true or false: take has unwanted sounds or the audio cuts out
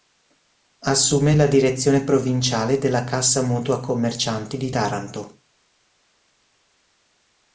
false